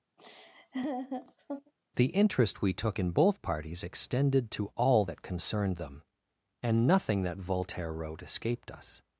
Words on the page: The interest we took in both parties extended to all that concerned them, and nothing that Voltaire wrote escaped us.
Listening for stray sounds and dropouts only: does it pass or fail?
fail